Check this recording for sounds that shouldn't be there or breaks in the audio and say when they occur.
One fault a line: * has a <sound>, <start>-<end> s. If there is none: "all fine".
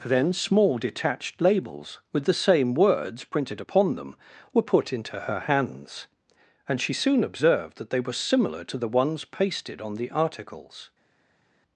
all fine